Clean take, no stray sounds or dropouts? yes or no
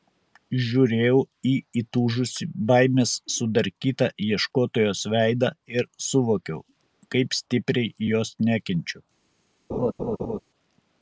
no